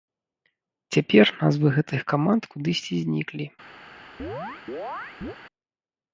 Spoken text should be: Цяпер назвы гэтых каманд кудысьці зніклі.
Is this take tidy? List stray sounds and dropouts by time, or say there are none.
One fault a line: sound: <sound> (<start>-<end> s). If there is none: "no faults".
sound: chirp (4.2-5.4 s)